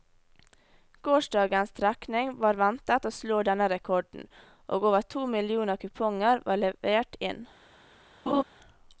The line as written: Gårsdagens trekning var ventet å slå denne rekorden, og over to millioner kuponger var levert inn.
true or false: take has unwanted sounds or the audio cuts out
true